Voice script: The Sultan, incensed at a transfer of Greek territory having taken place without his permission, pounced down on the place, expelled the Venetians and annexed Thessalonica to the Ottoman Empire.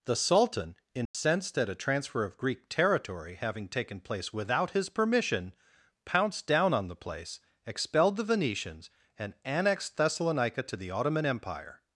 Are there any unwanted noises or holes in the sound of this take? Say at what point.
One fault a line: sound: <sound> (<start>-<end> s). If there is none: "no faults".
sound: dropout (1.1-1.1 s)